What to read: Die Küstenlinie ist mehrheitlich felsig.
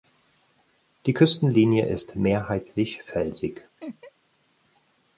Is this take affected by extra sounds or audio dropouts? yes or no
yes